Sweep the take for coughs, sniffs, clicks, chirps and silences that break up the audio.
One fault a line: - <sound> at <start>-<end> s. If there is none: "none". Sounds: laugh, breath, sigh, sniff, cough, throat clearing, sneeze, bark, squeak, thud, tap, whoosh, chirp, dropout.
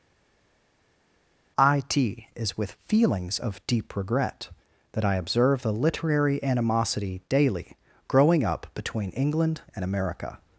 none